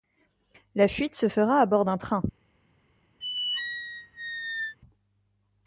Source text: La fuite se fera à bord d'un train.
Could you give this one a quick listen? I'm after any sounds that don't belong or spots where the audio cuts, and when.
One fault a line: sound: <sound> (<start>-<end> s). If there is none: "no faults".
sound: squeak (3.2-4.8 s)